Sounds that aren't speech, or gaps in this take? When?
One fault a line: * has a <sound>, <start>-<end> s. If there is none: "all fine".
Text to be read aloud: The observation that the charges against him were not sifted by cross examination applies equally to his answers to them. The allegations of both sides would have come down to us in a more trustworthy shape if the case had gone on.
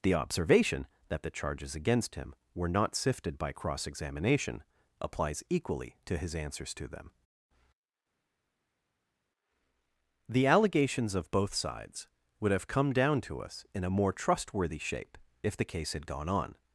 all fine